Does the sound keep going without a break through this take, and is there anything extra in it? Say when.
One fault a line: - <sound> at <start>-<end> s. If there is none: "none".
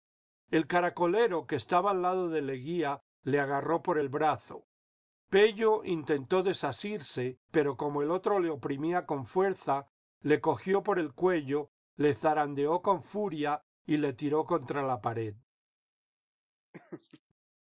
- laugh at 16.7-17.2 s